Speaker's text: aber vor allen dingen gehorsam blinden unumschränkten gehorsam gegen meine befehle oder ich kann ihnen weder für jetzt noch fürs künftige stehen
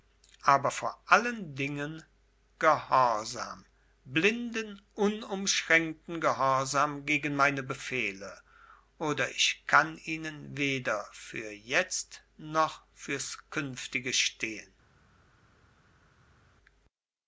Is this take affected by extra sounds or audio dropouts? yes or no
no